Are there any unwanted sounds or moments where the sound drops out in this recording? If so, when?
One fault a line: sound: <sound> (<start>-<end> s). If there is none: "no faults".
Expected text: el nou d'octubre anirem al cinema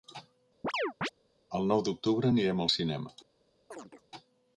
sound: chirp (0.6-1.1 s)
sound: chirp (3.7-4.1 s)